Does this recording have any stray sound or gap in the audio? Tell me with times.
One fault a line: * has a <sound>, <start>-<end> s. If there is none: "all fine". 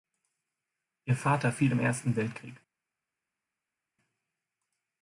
all fine